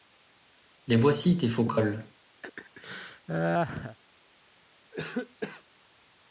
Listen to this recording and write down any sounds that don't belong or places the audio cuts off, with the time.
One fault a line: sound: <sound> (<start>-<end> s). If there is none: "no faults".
sound: laugh (2.4-4.0 s)
sound: cough (4.9-5.6 s)